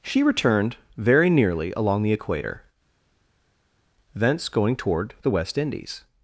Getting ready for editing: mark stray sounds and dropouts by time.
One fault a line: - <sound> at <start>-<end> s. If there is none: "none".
none